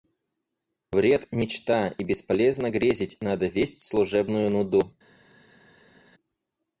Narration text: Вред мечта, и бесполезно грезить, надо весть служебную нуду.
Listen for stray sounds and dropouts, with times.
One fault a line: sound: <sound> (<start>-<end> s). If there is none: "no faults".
no faults